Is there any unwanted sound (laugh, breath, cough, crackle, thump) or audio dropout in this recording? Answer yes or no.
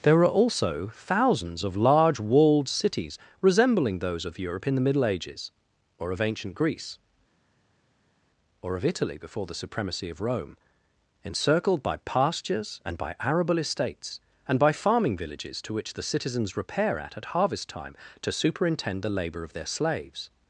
no